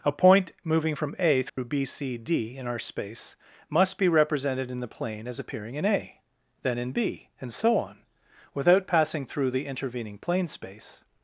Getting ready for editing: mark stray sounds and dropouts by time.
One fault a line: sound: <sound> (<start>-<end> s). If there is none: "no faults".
sound: dropout (1.5-1.6 s)